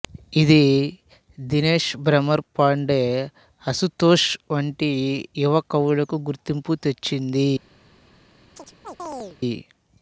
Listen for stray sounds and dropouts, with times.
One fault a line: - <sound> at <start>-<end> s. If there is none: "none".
- chirp at 8.5-9.4 s